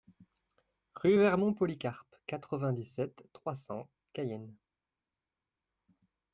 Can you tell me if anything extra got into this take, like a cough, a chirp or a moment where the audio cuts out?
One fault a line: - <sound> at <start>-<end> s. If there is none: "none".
none